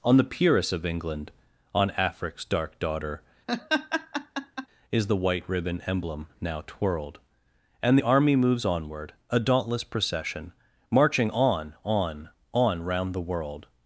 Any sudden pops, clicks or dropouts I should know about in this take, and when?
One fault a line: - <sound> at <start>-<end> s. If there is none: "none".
- laugh at 3.5-4.7 s